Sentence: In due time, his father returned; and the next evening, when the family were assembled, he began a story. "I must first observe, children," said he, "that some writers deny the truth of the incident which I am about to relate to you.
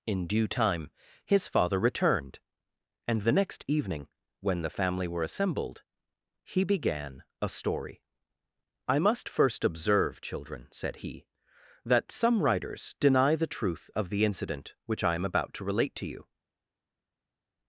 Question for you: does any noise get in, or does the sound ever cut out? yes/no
no